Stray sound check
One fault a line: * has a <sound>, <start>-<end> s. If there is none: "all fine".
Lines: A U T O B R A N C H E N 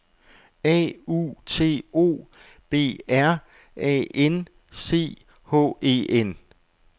all fine